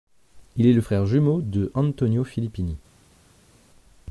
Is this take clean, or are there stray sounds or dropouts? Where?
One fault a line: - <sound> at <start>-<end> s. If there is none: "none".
none